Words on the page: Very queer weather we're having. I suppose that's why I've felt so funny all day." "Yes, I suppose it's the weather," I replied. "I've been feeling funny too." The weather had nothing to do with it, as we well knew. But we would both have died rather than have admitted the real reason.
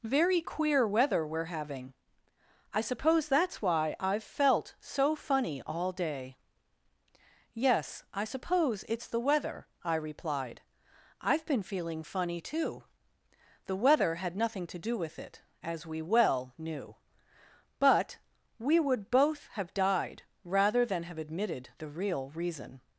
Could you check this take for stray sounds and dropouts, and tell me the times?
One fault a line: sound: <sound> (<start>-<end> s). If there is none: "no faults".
no faults